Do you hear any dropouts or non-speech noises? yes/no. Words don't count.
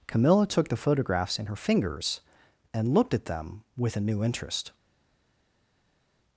no